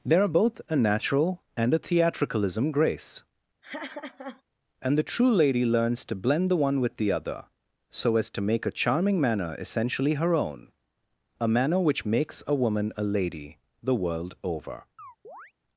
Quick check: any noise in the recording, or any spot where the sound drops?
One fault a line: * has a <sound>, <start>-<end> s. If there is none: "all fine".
* has a laugh, 3.6-4.4 s
* has a chirp, 15.0-15.5 s